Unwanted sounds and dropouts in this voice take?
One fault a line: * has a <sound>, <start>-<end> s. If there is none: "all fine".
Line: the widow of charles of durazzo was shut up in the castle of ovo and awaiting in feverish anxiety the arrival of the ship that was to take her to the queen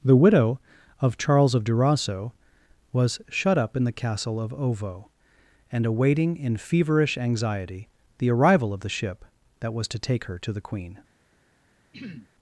* has a throat clearing, 11.9-12.3 s